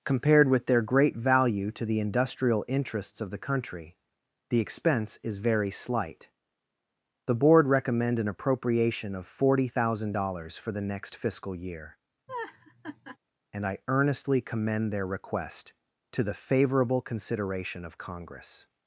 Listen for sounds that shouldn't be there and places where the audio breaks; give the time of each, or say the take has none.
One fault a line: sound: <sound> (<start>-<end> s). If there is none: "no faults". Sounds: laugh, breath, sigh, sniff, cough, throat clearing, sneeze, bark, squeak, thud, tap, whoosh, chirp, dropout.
sound: laugh (12.3-13.2 s)